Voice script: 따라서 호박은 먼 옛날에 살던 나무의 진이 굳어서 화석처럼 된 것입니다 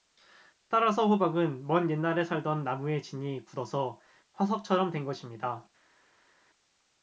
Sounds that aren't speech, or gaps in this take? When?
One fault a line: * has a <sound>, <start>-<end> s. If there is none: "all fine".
all fine